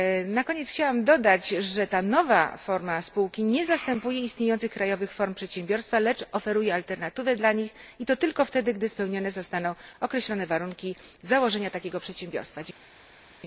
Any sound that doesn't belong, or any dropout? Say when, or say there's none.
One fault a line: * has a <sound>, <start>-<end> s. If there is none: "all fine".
all fine